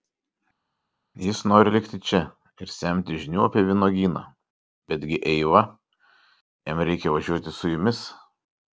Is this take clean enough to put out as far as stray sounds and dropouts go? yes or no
yes